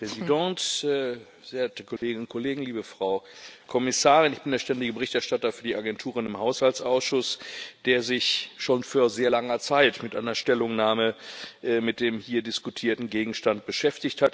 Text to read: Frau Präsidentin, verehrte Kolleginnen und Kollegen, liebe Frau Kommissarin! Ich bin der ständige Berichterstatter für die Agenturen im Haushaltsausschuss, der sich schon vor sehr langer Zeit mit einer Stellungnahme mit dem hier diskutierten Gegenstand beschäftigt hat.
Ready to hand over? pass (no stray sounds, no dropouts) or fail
fail